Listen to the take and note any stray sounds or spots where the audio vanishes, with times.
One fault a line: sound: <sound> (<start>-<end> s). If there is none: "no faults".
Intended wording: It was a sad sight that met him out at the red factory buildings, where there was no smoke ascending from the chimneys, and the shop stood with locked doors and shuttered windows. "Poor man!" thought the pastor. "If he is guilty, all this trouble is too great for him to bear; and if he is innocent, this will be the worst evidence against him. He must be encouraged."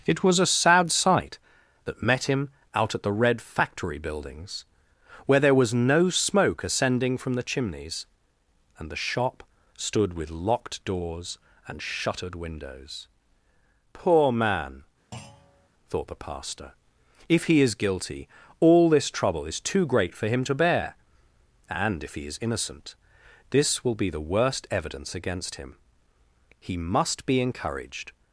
sound: thud (15.1-15.7 s)